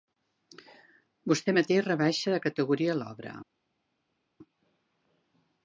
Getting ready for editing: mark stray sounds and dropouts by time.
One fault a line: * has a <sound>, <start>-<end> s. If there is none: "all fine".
all fine